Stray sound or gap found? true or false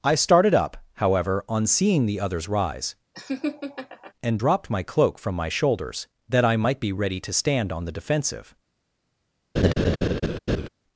true